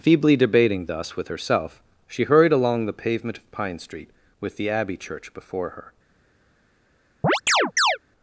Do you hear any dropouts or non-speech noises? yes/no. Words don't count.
yes